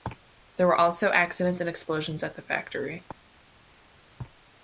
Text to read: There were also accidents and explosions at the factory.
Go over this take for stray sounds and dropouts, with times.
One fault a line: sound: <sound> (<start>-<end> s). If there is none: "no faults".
no faults